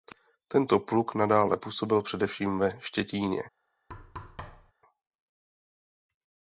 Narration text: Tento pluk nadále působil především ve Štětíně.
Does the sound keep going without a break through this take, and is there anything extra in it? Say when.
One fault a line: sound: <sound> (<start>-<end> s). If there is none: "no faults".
sound: thud (3.9-4.7 s)